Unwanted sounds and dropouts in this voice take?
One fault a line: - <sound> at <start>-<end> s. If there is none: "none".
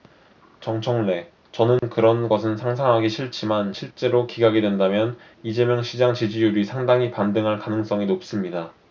- dropout at 1.8-1.8 s